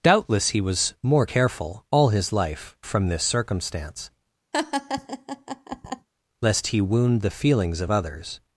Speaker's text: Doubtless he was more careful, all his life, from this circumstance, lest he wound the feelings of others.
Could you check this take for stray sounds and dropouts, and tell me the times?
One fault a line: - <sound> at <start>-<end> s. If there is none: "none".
- laugh at 4.5-6.1 s